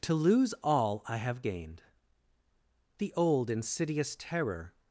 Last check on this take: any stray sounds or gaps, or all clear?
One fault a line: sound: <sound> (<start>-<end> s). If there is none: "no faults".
no faults